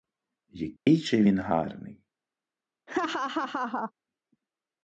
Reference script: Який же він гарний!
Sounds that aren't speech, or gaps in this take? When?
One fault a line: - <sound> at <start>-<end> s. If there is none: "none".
- dropout at 0.8-0.9 s
- laugh at 2.9-3.9 s